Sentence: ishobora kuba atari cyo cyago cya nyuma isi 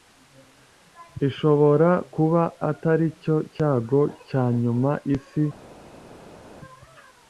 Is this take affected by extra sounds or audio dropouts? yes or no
no